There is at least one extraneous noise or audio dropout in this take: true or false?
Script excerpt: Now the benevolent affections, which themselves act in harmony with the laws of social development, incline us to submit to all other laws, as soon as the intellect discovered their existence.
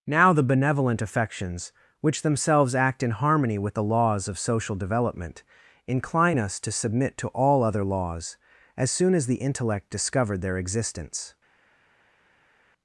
false